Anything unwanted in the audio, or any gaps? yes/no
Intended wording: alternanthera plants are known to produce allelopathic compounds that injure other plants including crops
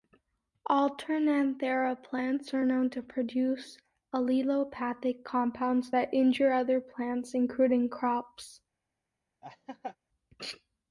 yes